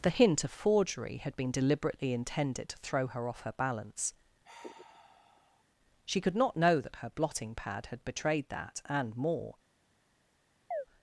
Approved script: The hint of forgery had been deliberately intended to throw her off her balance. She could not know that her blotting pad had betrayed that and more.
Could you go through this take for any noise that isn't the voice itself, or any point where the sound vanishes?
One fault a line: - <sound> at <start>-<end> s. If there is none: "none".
- sigh at 4.4-5.6 s
- chirp at 10.7-10.9 s